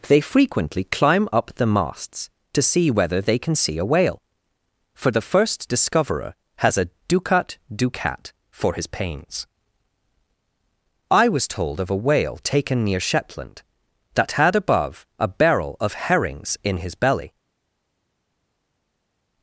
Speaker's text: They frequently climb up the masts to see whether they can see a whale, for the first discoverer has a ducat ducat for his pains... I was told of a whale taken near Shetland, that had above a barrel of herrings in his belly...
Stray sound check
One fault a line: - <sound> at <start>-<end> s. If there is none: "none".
none